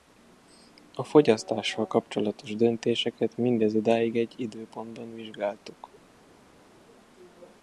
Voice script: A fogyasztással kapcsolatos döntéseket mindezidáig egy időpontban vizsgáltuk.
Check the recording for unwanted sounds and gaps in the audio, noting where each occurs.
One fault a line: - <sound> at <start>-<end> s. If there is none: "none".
none